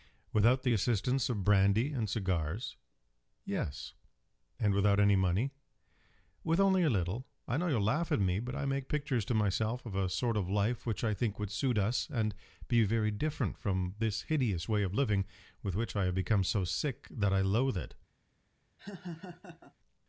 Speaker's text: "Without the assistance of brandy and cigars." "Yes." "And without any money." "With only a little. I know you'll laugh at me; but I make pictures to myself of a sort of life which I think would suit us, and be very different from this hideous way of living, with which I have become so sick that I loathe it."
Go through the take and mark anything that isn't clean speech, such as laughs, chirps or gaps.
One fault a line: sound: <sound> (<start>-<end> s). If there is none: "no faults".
sound: laugh (18.8-19.7 s)